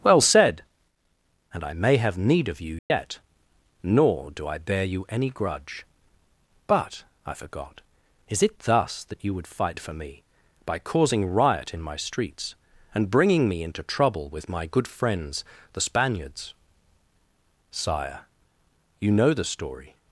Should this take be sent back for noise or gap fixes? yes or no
yes